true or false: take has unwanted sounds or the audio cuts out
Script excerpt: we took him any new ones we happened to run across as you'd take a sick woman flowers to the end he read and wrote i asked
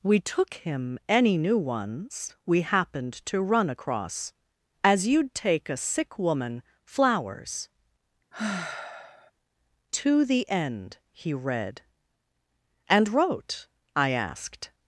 true